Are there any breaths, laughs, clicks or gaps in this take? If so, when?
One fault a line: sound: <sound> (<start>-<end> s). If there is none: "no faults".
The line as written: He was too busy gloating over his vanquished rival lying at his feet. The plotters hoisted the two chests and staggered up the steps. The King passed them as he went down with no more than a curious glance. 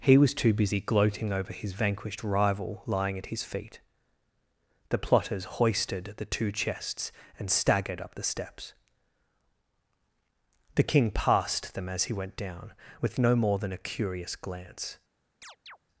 sound: chirp (15.4-15.8 s)